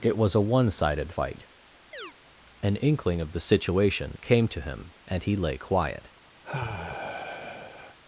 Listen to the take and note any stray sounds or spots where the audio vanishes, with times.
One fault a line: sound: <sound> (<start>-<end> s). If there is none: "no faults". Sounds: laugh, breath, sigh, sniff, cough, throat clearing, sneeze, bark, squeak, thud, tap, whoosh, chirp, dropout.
sound: chirp (1.9-2.1 s)
sound: sigh (6.4-8.0 s)